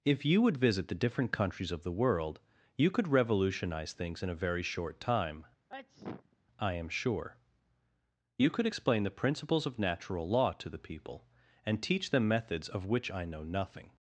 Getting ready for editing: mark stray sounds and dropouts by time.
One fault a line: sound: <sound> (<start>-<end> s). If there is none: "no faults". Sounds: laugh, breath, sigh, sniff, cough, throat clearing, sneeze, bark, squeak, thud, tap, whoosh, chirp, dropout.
sound: sneeze (5.7-6.4 s)